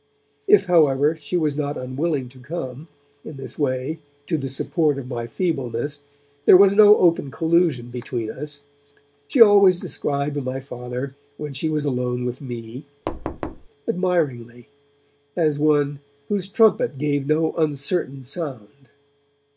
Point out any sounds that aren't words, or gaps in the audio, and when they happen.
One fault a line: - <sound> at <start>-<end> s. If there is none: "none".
- thud at 13.1-13.7 s